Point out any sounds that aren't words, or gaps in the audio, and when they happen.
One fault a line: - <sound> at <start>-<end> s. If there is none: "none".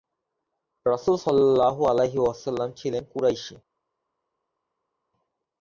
none